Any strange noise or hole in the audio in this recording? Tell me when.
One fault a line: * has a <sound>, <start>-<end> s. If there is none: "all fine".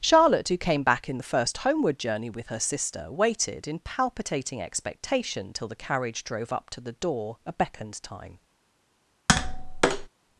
* has a tap, 9.3-10.1 s